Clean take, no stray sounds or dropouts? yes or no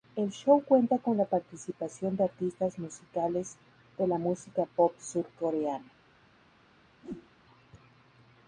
no